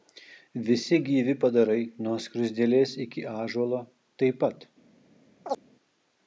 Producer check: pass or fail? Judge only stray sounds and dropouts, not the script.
fail